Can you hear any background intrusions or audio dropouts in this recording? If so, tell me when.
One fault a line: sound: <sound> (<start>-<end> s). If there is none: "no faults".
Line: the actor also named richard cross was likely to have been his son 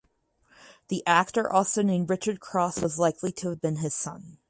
no faults